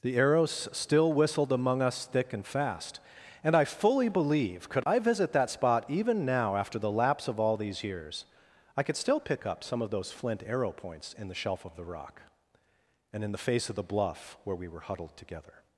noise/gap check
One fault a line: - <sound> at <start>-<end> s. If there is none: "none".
none